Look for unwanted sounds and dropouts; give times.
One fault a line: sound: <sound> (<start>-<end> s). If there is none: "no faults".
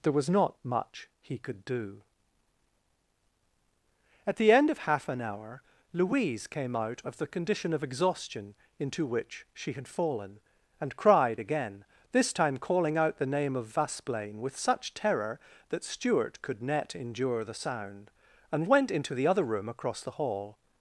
no faults